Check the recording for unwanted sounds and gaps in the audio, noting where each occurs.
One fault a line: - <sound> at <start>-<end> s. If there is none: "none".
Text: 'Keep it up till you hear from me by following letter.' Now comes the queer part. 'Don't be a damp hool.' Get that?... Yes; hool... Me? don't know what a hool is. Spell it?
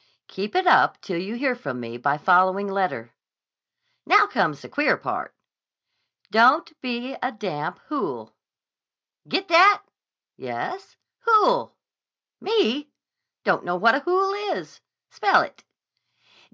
none